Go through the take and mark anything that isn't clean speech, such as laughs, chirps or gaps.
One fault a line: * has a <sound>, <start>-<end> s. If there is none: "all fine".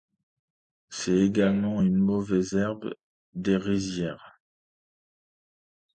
all fine